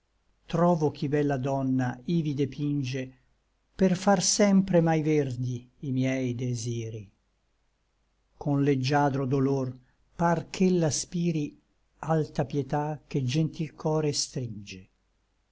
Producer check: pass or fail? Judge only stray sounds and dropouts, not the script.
pass